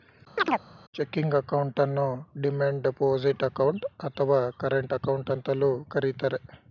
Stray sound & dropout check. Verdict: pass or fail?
fail